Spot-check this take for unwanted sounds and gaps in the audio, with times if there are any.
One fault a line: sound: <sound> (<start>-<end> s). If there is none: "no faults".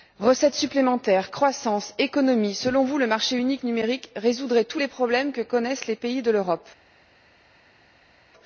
no faults